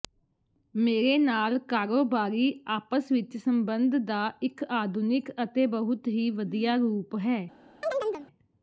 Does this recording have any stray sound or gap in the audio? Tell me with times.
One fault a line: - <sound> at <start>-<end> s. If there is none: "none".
- chirp at 7.8-8.3 s